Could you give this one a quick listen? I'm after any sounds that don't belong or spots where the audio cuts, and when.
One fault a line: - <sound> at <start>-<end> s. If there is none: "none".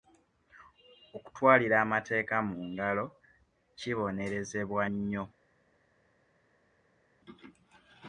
none